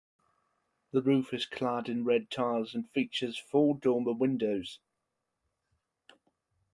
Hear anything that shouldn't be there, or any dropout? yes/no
no